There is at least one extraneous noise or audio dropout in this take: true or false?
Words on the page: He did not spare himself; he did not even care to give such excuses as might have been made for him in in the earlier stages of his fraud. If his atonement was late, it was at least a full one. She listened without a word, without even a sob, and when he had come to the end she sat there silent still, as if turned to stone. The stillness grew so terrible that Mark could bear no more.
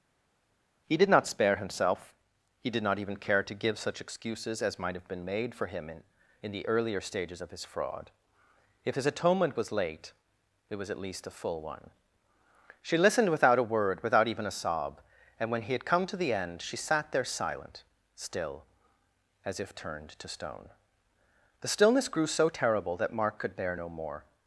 false